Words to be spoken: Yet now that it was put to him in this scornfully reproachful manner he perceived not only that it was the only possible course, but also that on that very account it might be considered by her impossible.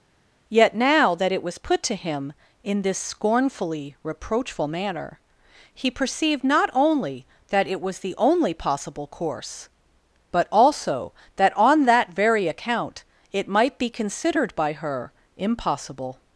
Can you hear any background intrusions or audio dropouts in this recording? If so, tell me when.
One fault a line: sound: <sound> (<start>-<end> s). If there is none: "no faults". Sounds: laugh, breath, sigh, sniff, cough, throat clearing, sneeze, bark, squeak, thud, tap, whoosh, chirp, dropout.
no faults